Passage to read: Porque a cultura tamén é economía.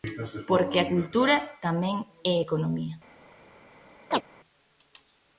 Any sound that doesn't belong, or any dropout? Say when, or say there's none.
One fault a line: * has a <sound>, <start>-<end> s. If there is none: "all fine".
* has a chirp, 4.1-4.2 s